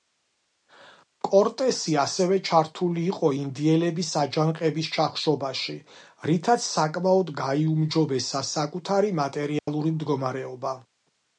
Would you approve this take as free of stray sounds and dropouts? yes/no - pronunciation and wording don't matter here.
no